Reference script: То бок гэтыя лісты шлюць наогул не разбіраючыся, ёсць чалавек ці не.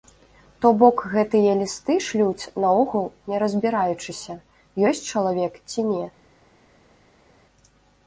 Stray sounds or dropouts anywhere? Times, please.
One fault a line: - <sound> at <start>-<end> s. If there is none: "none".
none